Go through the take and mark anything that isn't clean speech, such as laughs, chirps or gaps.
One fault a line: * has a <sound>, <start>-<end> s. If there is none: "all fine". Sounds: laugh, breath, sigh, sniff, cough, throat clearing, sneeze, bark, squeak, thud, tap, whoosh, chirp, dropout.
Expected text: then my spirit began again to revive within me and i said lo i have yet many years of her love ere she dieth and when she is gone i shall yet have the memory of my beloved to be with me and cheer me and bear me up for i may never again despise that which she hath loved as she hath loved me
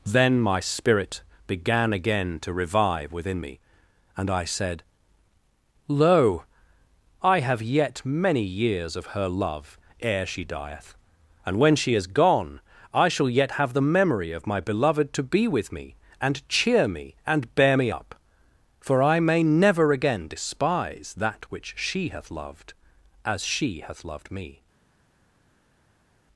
all fine